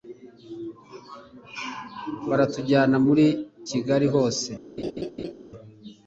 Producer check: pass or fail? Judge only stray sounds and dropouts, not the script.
fail